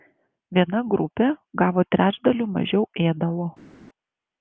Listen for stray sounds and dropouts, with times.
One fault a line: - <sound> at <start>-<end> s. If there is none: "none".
none